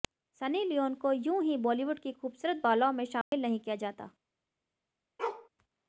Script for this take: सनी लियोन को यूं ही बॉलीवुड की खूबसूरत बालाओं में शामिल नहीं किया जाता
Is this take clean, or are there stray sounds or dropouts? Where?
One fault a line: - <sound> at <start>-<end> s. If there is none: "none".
- dropout at 3.2-3.3 s
- bark at 5.2-5.5 s